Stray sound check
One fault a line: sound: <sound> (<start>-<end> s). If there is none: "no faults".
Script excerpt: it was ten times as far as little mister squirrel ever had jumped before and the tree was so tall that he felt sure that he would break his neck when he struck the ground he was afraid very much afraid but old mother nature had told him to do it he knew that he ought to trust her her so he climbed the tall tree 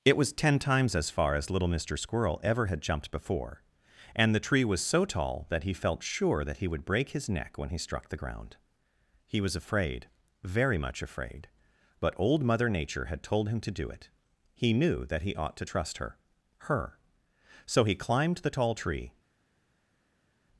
no faults